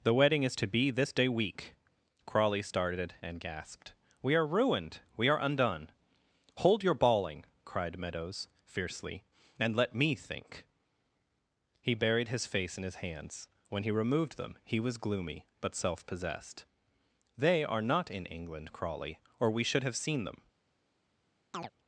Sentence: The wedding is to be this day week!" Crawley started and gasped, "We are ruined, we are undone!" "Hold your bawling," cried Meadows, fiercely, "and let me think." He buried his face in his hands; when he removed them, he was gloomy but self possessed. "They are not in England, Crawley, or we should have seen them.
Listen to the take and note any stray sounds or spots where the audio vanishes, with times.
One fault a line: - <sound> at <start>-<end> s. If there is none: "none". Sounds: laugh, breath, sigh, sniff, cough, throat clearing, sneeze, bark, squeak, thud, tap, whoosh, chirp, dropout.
- chirp at 21.5-21.7 s